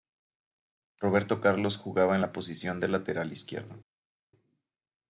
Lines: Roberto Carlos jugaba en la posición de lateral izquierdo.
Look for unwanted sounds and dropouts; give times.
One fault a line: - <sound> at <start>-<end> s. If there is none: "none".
none